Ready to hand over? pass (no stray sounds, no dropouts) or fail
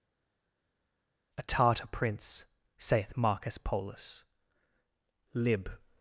pass